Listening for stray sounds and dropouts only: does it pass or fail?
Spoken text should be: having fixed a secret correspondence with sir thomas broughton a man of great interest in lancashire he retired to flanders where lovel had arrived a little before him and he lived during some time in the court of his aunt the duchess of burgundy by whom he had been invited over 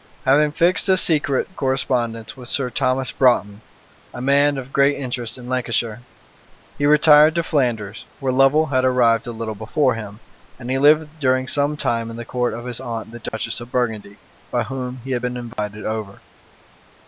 fail